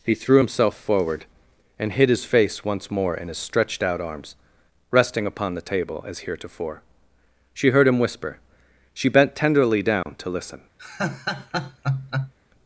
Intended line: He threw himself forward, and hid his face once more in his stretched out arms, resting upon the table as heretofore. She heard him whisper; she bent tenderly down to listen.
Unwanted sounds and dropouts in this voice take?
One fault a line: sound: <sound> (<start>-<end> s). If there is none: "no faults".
sound: dropout (10.0-10.1 s)
sound: laugh (10.8-12.3 s)